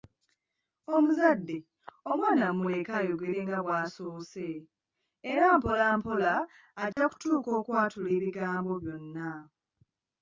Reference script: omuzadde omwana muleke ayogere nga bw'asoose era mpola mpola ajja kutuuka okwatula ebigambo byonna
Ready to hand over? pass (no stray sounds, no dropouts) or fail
fail